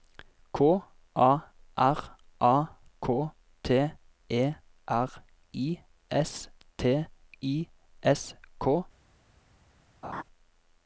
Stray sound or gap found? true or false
true